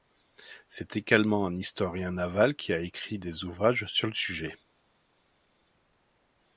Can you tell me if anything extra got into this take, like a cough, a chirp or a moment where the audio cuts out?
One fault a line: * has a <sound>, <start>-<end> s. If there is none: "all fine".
all fine